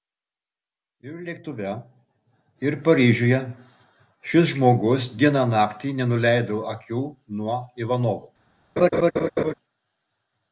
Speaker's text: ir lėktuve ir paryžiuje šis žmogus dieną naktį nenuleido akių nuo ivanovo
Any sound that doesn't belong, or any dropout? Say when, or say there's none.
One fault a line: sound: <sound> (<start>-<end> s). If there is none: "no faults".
sound: laugh (8.8-9.5 s)